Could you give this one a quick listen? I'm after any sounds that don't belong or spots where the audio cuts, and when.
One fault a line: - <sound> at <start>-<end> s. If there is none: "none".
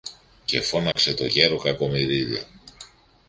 - dropout at 0.9-1.0 s